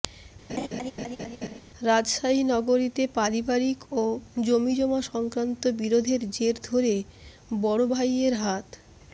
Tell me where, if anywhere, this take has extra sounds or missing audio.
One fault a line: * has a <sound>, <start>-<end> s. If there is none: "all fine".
* has a laugh, 0.5-1.6 s